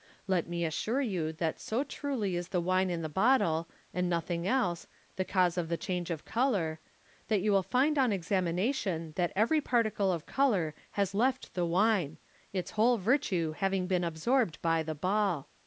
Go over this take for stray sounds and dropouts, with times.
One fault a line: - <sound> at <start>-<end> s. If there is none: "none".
none